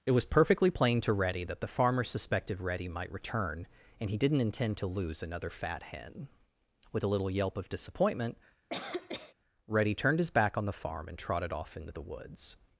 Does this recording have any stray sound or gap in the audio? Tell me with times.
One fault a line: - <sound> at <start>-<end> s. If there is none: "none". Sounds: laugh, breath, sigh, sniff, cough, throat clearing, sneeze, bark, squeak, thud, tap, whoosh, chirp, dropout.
- cough at 8.7-9.3 s